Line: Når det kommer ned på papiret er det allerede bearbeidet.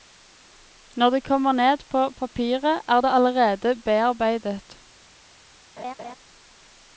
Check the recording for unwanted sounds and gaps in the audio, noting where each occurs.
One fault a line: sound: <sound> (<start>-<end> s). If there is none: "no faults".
sound: laugh (5.8-6.2 s)